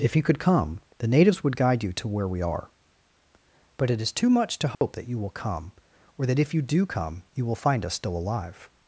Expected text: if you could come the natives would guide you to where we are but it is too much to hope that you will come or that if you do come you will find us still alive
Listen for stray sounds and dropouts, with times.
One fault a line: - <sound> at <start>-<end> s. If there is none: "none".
- dropout at 4.7-4.8 s